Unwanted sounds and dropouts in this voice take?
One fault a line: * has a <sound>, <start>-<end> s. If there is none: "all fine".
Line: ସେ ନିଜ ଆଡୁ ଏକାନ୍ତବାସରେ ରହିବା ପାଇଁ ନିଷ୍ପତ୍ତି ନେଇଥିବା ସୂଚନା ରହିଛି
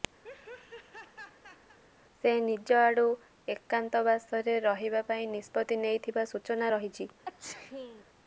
* has a laugh, 0.2-1.8 s
* has a sneeze, 7.2-8.0 s